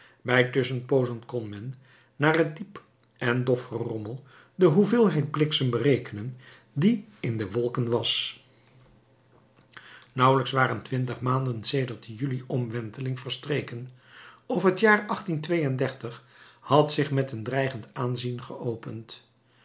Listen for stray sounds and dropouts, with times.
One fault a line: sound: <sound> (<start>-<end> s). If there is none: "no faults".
no faults